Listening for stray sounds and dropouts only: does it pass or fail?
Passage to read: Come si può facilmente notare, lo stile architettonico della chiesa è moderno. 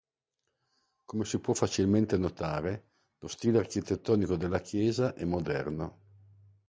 pass